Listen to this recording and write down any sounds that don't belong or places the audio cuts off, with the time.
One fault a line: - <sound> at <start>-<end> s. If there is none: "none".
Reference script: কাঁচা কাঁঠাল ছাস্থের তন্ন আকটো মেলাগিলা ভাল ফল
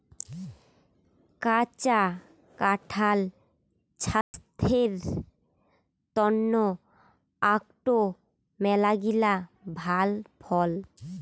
- dropout at 4.2-4.3 s